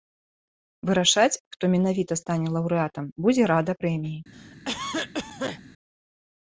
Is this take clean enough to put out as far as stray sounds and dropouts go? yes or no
no